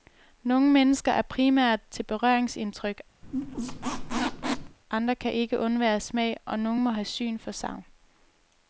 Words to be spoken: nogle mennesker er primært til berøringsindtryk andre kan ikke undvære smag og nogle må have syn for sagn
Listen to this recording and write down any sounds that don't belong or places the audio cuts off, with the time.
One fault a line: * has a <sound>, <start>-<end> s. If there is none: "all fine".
* has a squeak, 3.2-4.8 s